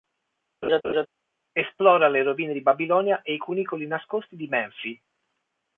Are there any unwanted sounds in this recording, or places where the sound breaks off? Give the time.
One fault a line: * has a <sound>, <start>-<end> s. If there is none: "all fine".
* has a laugh, 0.6-1.1 s